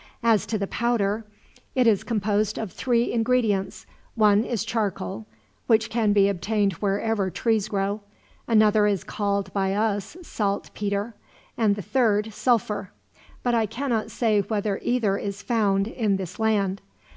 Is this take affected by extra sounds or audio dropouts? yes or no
no